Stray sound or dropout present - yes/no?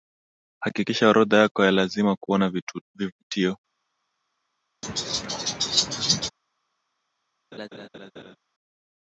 yes